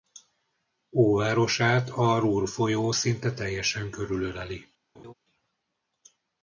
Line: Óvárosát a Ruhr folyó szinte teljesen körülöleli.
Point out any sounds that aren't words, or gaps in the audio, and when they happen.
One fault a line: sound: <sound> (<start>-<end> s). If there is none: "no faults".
sound: laugh (4.9-5.1 s)